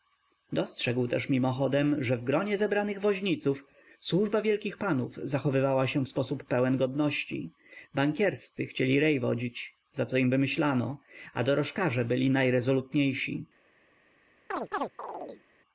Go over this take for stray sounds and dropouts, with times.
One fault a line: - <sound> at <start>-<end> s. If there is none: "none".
- chirp at 14.5-15.4 s